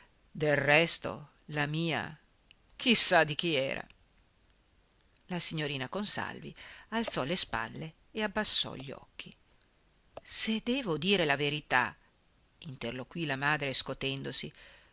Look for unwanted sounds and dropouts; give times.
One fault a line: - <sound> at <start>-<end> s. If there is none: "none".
none